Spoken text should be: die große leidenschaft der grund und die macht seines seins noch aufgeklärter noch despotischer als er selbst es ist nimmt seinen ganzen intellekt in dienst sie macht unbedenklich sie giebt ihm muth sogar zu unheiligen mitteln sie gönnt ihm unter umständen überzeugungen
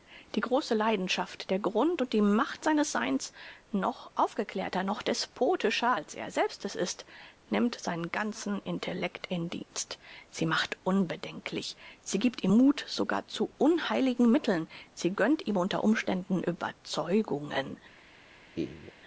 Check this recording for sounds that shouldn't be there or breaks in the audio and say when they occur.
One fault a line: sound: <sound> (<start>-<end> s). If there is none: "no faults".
sound: laugh (18.5-18.9 s)